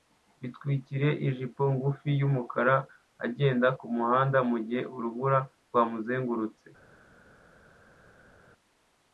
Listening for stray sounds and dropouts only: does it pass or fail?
pass